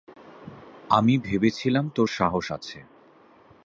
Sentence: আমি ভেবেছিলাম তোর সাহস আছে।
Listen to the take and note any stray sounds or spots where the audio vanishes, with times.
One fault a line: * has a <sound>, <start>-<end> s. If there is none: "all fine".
all fine